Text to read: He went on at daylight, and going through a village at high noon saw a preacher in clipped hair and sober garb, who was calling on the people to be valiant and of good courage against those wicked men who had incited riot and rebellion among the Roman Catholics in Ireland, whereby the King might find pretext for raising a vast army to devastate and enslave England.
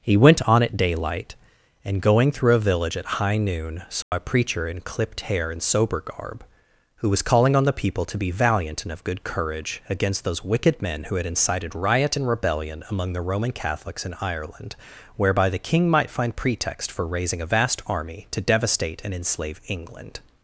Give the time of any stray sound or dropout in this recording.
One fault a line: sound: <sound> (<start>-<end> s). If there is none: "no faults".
sound: dropout (4.0-4.1 s)